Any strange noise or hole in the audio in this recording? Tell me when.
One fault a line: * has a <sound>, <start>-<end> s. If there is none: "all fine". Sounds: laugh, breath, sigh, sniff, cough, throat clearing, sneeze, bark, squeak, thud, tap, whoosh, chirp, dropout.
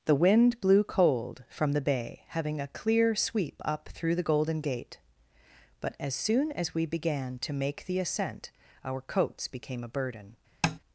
* has a tap, 10.6-10.8 s